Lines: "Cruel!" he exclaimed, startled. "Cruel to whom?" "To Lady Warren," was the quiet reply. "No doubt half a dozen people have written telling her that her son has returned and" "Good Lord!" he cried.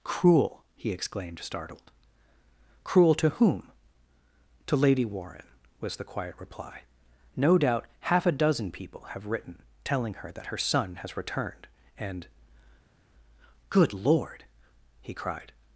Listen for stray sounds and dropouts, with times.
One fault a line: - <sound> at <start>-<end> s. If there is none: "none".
none